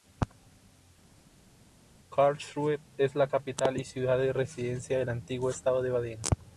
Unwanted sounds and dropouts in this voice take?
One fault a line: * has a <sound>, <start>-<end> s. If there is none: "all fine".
all fine